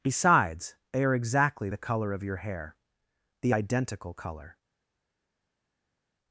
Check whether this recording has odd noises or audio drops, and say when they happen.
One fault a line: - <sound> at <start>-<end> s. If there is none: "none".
none